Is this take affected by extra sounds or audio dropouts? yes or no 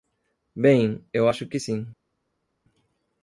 no